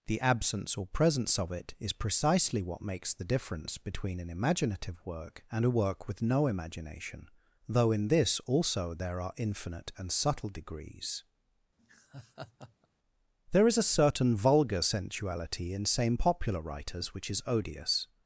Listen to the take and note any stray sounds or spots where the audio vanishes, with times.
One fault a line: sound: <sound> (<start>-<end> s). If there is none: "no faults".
sound: laugh (11.8-12.9 s)